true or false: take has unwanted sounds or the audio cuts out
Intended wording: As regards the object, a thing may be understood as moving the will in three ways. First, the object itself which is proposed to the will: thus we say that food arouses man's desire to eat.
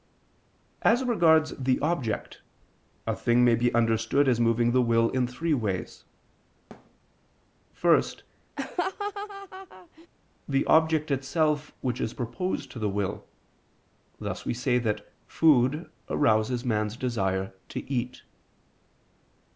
true